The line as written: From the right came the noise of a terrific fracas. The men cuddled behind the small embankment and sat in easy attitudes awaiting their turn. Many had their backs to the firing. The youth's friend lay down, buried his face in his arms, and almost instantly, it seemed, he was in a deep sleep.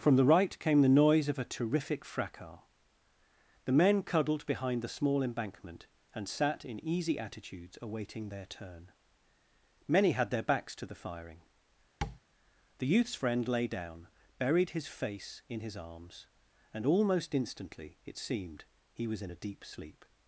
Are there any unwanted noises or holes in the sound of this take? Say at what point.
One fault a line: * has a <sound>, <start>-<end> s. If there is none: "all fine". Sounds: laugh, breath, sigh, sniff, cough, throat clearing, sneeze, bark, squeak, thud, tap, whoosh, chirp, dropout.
* has a tap, 12.0-12.2 s